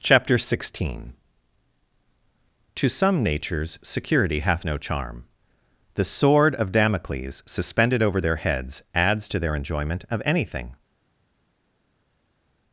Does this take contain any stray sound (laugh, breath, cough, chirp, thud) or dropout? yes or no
no